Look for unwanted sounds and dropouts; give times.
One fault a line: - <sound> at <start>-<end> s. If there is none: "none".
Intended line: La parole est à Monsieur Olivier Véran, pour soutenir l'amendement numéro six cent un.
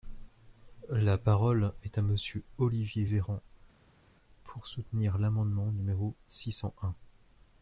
none